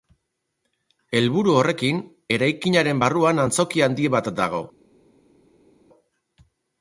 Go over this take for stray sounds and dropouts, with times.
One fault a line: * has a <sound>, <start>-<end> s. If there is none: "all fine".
all fine